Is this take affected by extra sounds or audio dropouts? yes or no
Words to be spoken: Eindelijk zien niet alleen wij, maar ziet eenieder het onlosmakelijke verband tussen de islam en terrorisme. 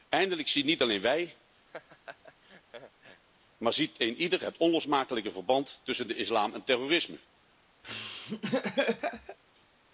yes